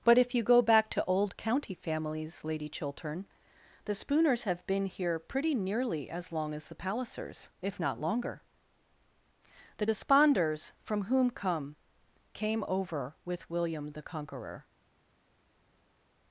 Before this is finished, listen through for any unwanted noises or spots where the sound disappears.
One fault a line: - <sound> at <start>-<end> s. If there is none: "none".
none